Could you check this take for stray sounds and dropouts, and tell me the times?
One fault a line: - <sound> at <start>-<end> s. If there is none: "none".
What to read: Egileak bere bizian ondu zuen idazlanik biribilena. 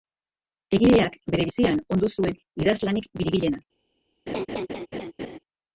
- laugh at 4.3-5.4 s